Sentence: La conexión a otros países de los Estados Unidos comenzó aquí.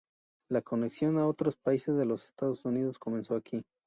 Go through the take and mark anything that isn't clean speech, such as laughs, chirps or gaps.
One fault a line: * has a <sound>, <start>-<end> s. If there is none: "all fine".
all fine